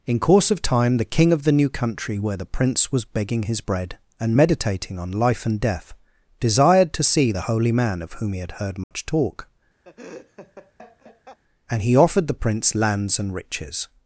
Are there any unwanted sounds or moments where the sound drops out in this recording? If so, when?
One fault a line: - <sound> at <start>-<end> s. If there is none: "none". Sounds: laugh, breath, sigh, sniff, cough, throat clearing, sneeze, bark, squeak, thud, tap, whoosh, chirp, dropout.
- dropout at 8.8-8.9 s
- laugh at 9.8-11.4 s